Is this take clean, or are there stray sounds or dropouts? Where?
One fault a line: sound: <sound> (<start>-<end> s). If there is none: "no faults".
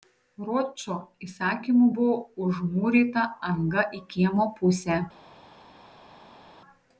no faults